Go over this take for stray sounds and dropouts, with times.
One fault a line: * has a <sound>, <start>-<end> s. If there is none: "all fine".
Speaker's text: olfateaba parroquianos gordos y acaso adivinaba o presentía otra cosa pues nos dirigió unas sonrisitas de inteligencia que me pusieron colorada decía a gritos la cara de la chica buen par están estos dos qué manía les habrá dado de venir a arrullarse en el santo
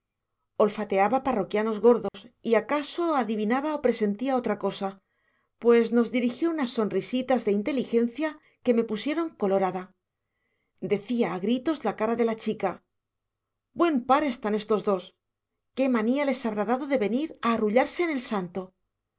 * has a dropout, 2.1-2.1 s